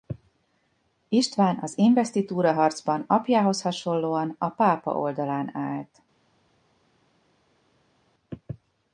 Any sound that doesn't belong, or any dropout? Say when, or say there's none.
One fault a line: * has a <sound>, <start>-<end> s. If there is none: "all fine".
all fine